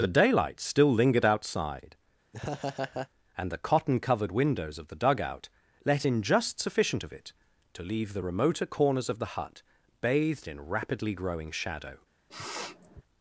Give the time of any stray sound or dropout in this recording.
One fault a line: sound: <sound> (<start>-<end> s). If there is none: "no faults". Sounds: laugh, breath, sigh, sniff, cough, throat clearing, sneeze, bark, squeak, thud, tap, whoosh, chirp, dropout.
sound: laugh (2.3-3.1 s)
sound: sniff (12.3-13.0 s)